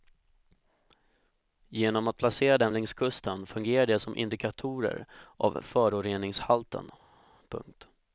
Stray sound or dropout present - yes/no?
no